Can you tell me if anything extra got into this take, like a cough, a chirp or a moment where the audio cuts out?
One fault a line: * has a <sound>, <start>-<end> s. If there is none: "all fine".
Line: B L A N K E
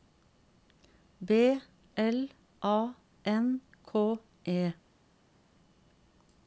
all fine